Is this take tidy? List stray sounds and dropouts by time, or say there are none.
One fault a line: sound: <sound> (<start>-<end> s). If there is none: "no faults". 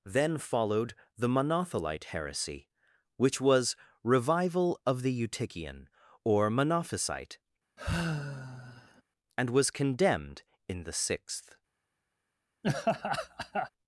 sound: sigh (7.8-9.0 s)
sound: laugh (12.6-13.7 s)